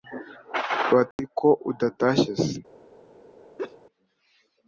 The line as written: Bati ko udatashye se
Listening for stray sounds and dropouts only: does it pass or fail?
fail